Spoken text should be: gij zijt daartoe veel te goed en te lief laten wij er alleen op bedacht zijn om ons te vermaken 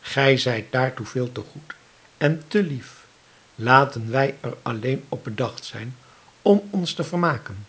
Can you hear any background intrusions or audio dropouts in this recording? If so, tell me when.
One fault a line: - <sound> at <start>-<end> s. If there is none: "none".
none